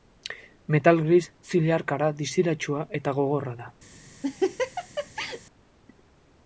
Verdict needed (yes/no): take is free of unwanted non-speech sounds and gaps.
no